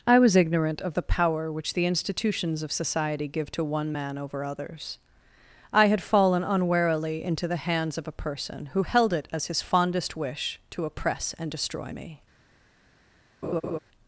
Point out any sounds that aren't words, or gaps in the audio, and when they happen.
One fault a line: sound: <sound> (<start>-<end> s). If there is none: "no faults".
sound: laugh (13.4-13.8 s)